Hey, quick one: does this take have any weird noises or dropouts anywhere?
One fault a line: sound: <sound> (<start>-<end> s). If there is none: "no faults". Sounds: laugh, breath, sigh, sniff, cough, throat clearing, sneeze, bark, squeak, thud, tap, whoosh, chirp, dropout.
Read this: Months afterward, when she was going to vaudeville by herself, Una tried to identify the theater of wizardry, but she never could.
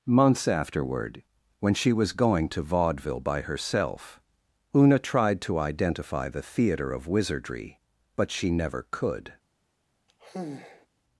sound: sigh (10.1-10.9 s)